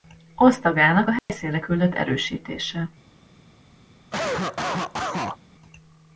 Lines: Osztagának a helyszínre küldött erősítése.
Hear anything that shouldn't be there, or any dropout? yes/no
yes